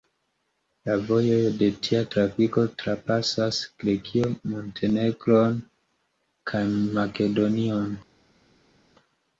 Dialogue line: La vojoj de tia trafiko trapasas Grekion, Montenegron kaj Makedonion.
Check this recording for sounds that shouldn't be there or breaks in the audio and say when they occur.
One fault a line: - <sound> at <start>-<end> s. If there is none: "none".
none